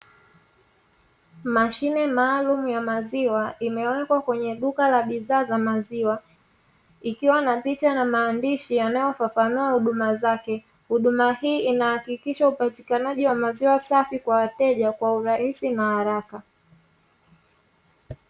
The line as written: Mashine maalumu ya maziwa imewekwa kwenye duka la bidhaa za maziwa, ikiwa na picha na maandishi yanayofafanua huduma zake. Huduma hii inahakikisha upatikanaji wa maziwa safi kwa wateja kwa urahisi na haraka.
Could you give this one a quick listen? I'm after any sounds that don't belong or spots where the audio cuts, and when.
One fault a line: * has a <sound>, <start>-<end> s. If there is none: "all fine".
all fine